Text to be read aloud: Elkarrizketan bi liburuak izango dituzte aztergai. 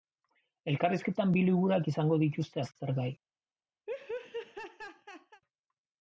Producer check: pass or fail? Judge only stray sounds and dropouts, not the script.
fail